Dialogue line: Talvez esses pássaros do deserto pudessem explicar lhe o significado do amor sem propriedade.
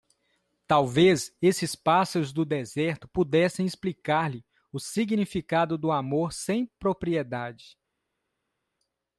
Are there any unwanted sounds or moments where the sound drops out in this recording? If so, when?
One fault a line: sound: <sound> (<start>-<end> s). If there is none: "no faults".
no faults